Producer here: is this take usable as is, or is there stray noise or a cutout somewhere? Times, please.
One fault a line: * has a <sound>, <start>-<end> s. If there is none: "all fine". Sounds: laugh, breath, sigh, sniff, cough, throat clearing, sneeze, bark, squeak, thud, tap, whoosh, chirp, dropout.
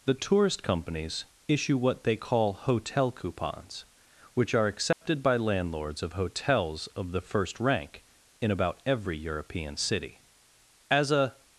* has a dropout, 4.9-5.0 s